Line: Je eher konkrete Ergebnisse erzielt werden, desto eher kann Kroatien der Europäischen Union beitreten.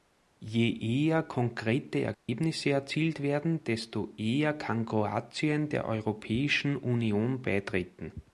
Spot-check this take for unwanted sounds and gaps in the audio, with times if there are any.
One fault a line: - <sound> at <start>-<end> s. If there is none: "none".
- dropout at 2.1-2.3 s